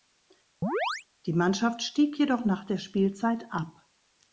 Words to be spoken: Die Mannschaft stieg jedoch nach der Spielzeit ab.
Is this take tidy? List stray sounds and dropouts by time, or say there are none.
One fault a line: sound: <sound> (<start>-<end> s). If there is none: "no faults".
sound: chirp (0.6-1.1 s)